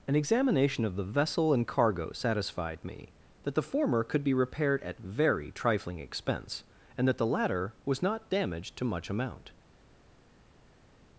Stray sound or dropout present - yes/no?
no